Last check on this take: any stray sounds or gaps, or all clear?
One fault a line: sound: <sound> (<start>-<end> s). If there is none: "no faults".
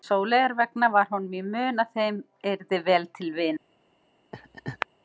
sound: laugh (4.3-4.9 s)